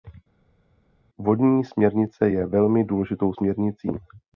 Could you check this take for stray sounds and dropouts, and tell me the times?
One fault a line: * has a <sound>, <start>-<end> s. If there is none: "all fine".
all fine